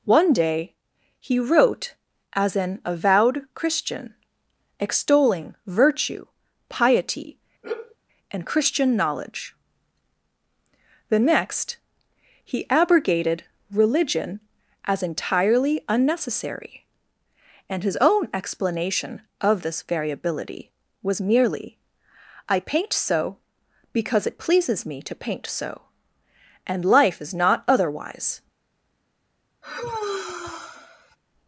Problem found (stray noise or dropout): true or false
true